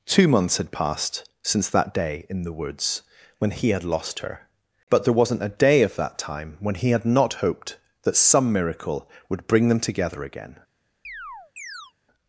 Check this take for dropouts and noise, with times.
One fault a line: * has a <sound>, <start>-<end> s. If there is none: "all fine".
* has a chirp, 11.0-11.9 s